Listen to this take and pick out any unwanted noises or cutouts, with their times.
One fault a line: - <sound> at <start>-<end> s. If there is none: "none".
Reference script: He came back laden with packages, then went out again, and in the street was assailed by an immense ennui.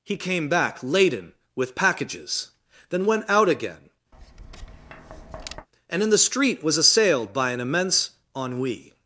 - tap at 4.1-5.7 s